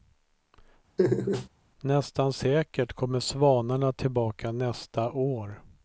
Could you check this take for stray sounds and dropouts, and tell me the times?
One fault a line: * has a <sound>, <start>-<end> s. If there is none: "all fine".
* has a laugh, 1.0-1.5 s